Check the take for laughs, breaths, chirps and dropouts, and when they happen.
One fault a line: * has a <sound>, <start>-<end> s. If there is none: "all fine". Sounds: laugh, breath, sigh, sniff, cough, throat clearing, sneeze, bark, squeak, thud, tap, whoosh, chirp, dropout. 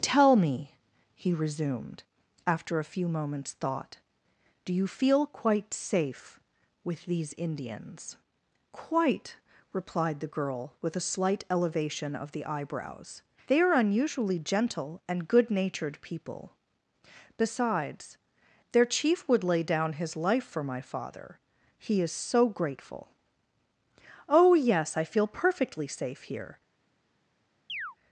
* has a chirp, 27.7-28.0 s